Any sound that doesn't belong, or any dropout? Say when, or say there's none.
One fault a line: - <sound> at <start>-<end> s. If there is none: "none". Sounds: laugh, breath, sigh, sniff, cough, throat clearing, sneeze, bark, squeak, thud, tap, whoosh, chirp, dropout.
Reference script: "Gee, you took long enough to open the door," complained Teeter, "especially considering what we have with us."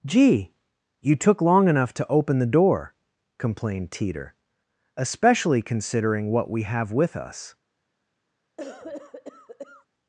- cough at 8.6-9.9 s